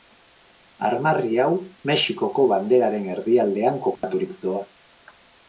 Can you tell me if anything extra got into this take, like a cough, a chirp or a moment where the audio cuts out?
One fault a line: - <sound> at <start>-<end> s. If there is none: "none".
- dropout at 4.0-4.0 s